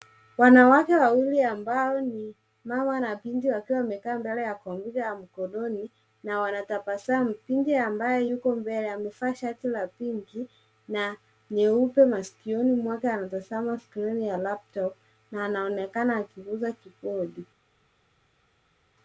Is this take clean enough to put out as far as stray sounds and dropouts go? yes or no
yes